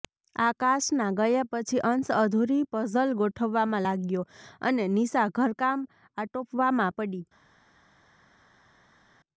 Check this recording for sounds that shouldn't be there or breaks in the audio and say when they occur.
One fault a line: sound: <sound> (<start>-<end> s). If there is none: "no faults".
no faults